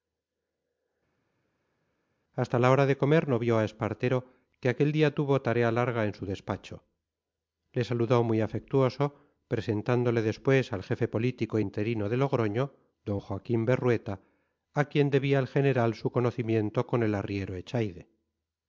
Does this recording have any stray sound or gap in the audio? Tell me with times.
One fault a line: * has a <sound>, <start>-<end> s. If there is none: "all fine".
all fine